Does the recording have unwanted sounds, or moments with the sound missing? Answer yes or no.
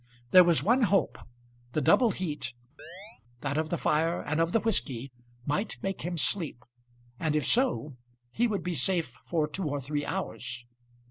yes